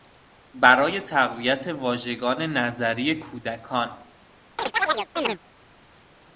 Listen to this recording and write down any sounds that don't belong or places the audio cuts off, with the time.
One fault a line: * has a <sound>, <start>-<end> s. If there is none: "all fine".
* has a chirp, 4.6-5.4 s